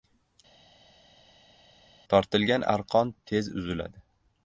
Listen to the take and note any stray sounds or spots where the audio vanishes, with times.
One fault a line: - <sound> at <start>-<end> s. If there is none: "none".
none